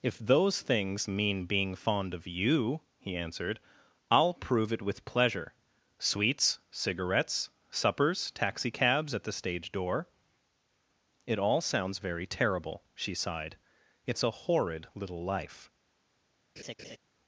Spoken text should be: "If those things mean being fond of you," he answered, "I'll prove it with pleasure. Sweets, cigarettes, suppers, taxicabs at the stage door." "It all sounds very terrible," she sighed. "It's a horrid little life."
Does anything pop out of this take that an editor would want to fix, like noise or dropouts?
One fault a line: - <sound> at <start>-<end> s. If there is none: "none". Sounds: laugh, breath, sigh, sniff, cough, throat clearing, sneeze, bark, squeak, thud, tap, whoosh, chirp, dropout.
- laugh at 16.6-17.0 s